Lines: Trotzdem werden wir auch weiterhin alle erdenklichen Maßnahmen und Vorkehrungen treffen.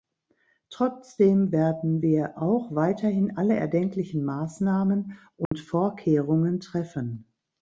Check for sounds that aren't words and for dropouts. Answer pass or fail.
fail